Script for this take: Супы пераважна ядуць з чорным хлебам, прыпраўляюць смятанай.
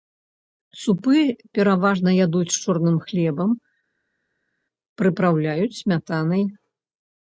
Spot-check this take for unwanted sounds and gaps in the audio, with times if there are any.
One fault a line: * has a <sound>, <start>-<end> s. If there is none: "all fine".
all fine